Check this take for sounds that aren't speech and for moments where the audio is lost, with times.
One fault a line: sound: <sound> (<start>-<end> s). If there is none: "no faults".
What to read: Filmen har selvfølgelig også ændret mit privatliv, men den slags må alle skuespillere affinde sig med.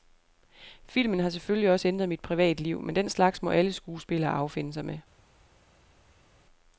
no faults